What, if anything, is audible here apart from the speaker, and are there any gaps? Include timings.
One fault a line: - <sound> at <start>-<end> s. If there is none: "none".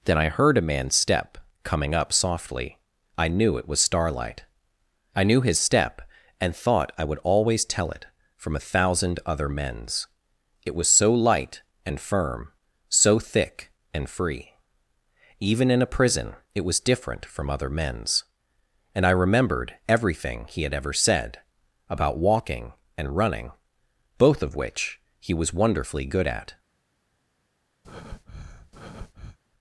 - breath at 27.8-29.4 s